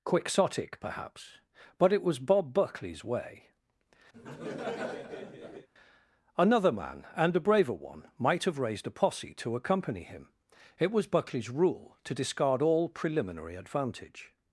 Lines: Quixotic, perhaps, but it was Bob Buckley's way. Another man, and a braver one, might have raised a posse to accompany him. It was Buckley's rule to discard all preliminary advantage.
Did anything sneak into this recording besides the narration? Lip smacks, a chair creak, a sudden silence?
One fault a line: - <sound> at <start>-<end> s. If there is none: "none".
- laugh at 4.1-5.7 s